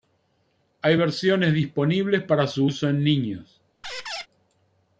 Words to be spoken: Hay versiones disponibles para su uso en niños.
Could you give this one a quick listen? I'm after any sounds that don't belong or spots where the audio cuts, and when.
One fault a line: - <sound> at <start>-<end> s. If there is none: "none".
- squeak at 3.8-4.3 s